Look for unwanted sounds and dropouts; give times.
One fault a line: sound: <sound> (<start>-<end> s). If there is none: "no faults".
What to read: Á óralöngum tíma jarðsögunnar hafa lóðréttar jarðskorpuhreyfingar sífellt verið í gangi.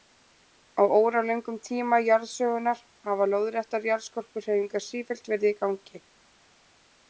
no faults